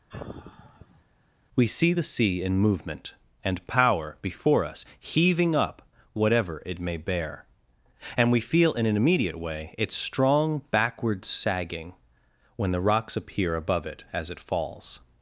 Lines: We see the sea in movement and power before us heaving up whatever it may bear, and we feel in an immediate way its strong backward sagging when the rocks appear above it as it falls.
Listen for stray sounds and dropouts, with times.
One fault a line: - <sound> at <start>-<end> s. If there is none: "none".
- sigh at 0.1-1.0 s